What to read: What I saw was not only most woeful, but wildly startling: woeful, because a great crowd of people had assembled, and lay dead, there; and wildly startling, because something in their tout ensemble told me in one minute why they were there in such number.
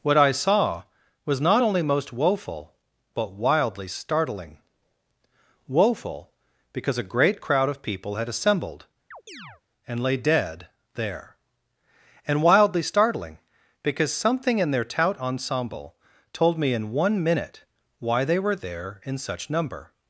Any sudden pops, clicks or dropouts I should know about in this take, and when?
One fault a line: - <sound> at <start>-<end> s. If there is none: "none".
- chirp at 9.1-9.6 s